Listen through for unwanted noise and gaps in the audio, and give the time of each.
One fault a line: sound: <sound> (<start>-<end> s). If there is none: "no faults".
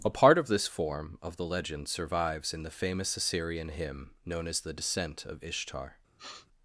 sound: sniff (6.2-6.5 s)